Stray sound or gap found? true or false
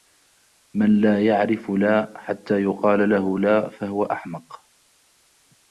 false